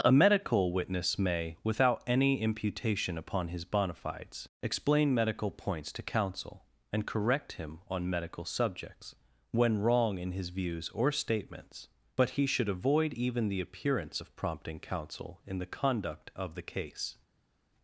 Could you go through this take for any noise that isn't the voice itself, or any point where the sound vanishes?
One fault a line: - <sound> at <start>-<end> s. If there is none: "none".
none